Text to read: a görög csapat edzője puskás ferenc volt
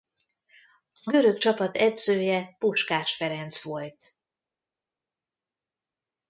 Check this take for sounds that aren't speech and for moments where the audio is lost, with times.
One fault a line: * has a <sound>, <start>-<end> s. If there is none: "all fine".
all fine